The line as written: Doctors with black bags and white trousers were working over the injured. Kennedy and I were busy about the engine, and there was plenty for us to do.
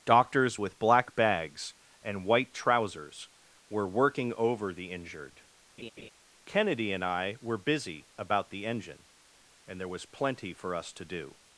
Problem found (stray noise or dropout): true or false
true